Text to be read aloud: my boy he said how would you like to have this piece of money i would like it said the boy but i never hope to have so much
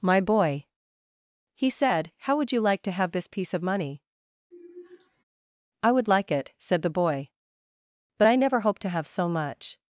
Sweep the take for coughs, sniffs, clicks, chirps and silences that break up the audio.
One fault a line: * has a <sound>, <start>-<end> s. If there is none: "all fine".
* has a sigh, 4.5-5.2 s